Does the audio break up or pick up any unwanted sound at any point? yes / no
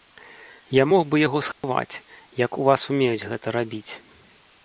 yes